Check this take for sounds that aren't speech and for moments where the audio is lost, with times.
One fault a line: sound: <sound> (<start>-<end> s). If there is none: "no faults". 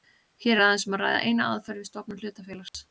sound: dropout (2.7-2.7 s)